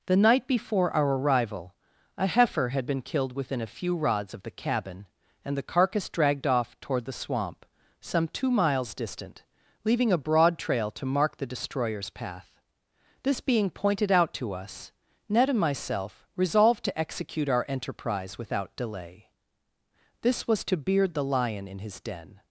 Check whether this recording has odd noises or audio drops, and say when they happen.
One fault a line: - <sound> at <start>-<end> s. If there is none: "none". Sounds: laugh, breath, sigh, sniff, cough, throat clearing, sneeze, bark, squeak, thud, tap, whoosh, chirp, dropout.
none